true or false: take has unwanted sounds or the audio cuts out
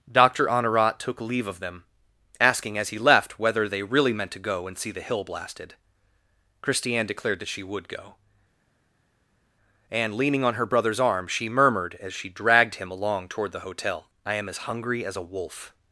false